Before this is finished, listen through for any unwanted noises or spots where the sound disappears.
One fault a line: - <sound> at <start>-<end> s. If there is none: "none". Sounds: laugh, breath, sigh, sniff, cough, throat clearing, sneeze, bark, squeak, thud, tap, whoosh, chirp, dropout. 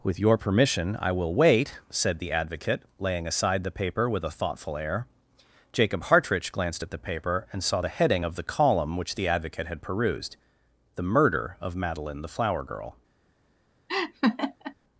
- laugh at 13.9-14.7 s